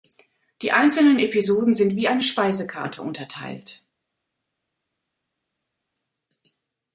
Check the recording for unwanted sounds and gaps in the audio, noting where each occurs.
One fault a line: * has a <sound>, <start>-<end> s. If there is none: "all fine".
all fine